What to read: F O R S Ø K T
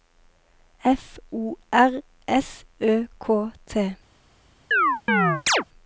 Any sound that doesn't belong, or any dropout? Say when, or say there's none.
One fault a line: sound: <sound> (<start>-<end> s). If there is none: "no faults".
sound: chirp (4.7-5.6 s)